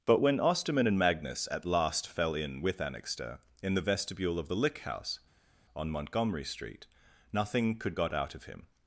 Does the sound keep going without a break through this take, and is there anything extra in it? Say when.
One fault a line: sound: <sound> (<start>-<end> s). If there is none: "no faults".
no faults